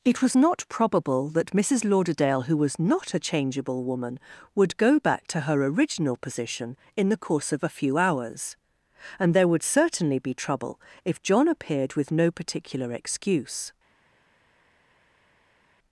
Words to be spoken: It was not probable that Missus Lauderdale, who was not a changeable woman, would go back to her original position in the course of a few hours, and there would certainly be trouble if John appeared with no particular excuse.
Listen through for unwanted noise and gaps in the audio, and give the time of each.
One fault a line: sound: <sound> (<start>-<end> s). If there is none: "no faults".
no faults